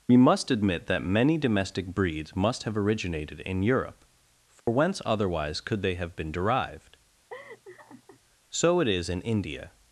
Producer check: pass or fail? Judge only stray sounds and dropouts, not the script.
fail